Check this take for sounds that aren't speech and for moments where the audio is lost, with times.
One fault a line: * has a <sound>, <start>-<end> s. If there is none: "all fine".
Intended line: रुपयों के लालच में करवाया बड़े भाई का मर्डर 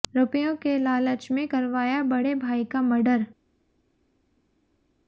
all fine